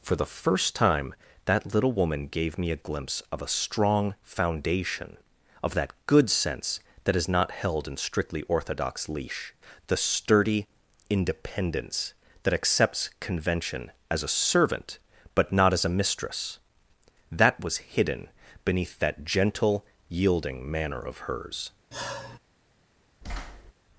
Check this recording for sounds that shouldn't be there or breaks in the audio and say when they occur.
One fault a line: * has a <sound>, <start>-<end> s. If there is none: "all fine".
* has a sigh, 21.9-22.4 s
* has a thud, 23.2-23.7 s